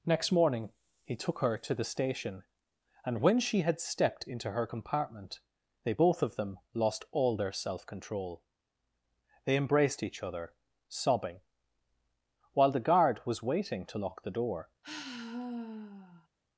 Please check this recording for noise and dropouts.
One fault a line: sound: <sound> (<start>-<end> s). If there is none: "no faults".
sound: sigh (14.8-16.3 s)